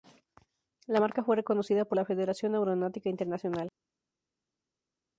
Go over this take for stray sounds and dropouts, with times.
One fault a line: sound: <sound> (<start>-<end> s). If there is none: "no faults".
no faults